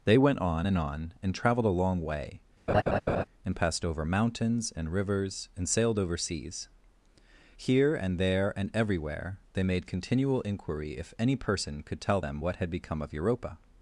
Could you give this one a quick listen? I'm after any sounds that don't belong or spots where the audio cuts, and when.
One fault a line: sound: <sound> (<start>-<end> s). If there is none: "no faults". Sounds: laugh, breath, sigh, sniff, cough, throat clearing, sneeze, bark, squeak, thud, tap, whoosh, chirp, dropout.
sound: laugh (2.7-3.2 s)